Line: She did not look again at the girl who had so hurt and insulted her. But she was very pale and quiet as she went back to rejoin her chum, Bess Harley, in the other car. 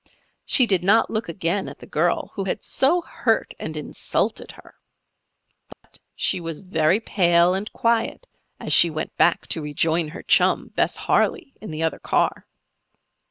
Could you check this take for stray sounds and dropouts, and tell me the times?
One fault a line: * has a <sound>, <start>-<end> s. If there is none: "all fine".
* has a dropout, 5.7-5.8 s